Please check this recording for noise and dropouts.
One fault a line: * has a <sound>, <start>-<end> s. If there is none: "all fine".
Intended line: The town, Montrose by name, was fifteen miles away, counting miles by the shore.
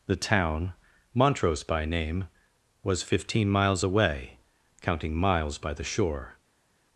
all fine